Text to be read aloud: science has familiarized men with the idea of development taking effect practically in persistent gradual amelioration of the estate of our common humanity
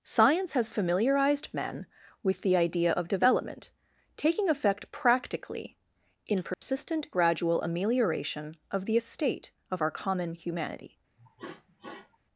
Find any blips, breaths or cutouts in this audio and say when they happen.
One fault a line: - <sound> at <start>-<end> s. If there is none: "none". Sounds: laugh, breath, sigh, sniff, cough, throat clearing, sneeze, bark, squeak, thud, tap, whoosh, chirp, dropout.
- dropout at 6.5-6.6 s
- sniff at 11.2-12.2 s